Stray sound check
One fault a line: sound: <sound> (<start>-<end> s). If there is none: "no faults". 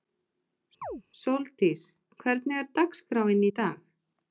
sound: chirp (0.8-1.0 s)